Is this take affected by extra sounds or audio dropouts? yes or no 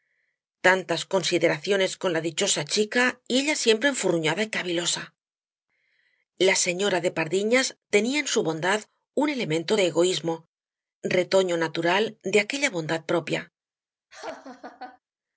yes